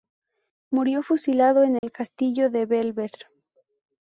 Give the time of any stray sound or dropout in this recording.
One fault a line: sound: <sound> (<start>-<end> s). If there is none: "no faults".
sound: dropout (1.8-1.8 s)